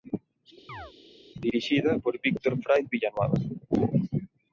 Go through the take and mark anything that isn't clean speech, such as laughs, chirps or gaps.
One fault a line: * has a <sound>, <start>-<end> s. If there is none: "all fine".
* has a chirp, 0.7-0.9 s